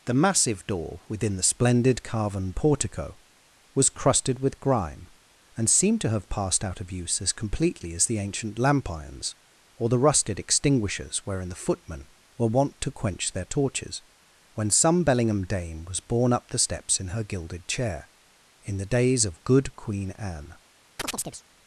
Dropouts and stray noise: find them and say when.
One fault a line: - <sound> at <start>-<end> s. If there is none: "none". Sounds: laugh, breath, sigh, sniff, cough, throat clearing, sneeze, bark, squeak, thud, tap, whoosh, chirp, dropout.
- chirp at 21.0-21.4 s